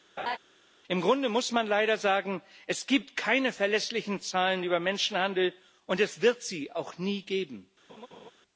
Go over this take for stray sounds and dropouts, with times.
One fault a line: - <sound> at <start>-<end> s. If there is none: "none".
- laugh at 0.2-0.4 s
- laugh at 7.9-8.3 s